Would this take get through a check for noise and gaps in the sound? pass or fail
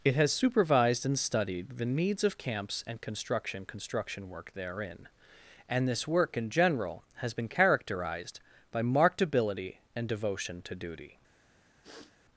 fail